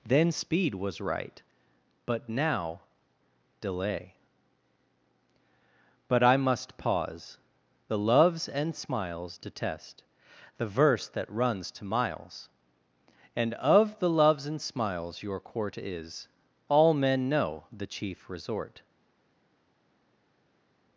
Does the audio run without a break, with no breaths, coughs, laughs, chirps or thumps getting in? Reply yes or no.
yes